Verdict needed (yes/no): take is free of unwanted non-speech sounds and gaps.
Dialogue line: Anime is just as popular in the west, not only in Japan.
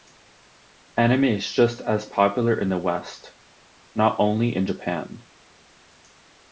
yes